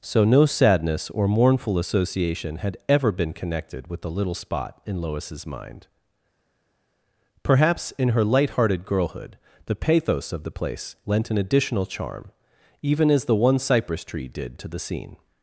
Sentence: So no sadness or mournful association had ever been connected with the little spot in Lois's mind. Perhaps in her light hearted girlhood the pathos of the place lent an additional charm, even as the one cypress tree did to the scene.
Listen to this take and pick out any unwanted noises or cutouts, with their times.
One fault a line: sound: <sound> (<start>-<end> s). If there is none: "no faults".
no faults